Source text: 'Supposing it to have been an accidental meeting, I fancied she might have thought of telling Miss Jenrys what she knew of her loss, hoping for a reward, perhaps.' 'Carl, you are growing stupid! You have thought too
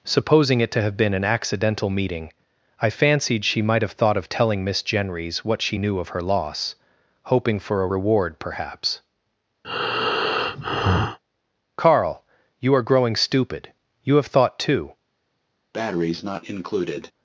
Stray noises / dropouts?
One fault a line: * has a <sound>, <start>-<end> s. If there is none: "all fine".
* has a breath, 9.6-11.2 s
* has a breath, 15.7-17.1 s